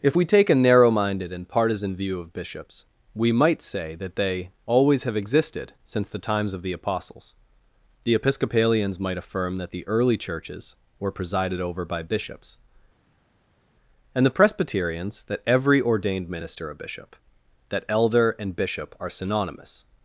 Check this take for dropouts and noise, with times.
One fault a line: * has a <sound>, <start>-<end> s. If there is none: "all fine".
all fine